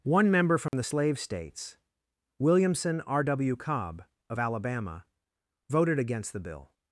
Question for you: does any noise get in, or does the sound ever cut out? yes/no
yes